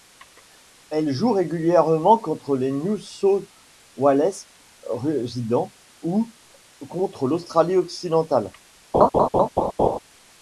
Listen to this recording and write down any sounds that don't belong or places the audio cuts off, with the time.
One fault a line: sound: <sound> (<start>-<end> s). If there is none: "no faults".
sound: laugh (8.9-10.0 s)